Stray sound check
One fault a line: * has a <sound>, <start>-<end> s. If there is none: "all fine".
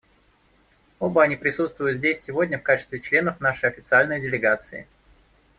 all fine